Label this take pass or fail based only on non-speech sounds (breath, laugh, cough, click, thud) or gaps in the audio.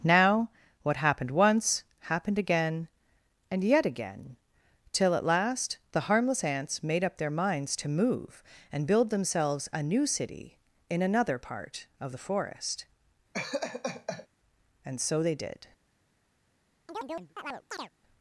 fail